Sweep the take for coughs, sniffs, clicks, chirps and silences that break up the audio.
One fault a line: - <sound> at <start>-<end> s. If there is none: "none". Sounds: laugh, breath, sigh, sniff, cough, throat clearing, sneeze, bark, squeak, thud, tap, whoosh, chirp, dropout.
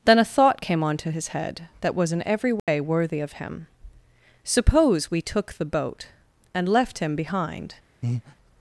- dropout at 2.6-2.7 s
- breath at 8.0-8.4 s